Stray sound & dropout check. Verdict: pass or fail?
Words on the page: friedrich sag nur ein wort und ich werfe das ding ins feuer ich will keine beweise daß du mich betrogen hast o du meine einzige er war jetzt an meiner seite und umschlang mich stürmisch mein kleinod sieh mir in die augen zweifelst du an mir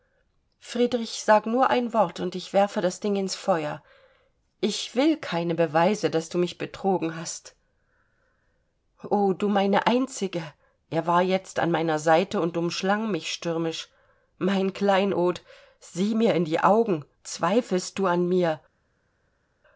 pass